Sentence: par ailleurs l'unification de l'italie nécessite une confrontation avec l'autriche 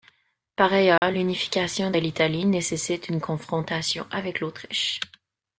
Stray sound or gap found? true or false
true